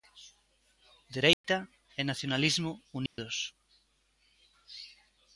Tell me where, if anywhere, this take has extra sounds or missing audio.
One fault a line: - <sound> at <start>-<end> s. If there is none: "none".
- dropout at 1.3-1.4 s
- dropout at 3.1-3.2 s